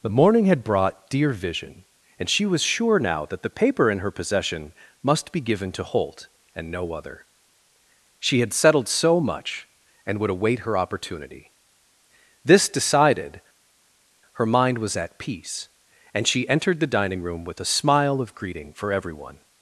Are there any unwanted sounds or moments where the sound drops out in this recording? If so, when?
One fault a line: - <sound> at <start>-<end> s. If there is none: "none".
none